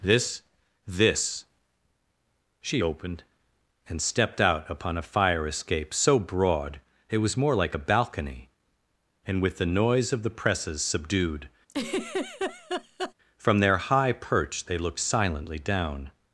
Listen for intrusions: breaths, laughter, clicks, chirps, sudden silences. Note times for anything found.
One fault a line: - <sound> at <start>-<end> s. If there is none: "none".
- laugh at 11.7-13.1 s